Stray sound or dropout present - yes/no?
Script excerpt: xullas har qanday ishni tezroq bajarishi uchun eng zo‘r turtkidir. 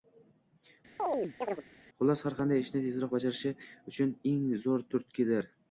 yes